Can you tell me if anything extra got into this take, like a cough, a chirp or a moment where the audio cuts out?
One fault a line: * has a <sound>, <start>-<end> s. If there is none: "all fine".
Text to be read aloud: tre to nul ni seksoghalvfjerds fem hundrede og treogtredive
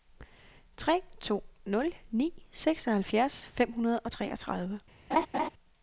* has a laugh, 5.1-5.5 s